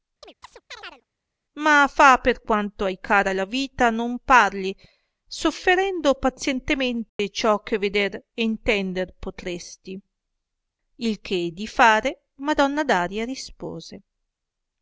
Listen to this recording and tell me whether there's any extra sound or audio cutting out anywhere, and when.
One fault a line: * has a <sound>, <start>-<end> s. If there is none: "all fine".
* has a chirp, 0.2-1.0 s
* has a dropout, 7.1-7.2 s